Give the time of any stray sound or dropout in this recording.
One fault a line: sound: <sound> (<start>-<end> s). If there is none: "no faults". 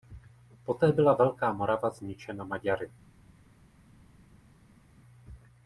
no faults